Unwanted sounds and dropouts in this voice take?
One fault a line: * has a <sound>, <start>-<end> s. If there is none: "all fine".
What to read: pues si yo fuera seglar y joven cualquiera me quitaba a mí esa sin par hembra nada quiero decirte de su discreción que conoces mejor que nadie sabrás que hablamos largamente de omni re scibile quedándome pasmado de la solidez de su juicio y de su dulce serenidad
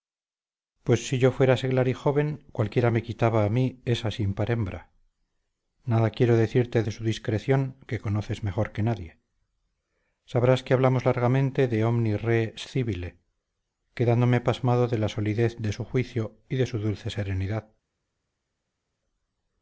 all fine